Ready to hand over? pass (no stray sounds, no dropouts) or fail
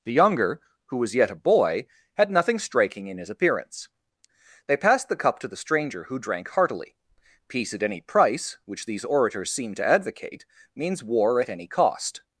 pass